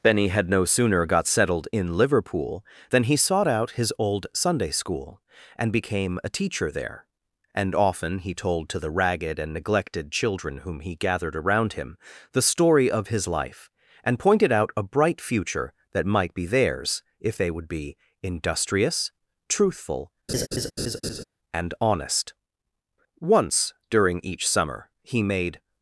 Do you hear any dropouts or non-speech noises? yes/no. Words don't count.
yes